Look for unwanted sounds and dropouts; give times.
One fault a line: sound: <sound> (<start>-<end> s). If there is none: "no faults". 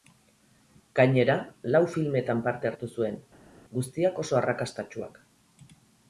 no faults